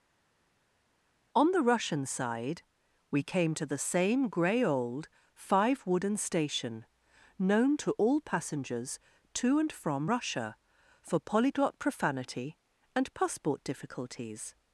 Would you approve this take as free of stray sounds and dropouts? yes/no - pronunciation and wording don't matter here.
yes